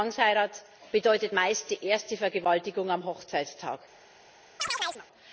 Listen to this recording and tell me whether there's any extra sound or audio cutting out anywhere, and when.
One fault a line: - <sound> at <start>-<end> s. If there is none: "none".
- chirp at 4.6-5.1 s